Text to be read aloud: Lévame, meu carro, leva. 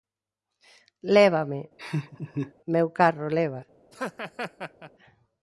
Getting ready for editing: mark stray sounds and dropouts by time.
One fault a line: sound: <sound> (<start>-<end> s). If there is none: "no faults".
sound: laugh (1.8-2.5 s)
sound: laugh (3.9-4.9 s)